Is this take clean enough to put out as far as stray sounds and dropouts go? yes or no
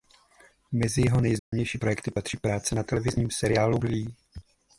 no